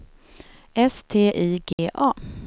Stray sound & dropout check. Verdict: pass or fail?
fail